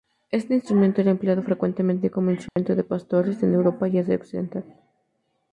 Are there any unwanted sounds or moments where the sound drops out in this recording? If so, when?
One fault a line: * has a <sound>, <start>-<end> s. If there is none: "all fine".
* has a dropout, 2.5-2.6 s